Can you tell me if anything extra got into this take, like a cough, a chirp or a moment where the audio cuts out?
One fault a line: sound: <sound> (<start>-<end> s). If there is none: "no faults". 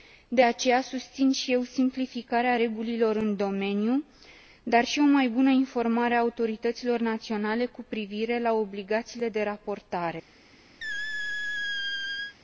sound: squeak (10.8-12.4 s)